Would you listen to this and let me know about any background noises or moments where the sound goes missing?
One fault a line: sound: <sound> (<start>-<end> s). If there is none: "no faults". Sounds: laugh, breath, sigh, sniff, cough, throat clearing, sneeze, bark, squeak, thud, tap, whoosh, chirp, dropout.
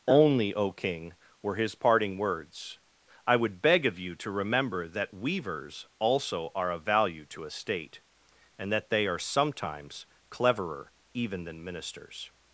no faults